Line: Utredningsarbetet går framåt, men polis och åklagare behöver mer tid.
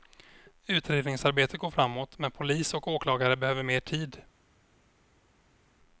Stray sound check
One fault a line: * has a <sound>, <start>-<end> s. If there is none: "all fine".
all fine